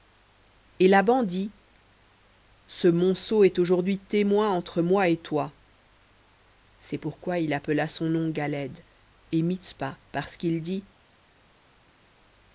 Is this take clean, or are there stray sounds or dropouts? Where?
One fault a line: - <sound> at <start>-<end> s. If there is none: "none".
none